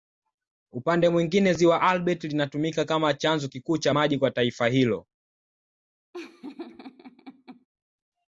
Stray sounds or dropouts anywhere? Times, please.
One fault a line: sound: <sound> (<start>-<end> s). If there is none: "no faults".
sound: laugh (6.1-7.7 s)